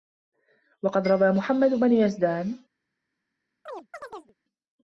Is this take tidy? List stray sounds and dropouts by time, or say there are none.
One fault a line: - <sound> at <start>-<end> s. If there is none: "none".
- chirp at 3.7-4.3 s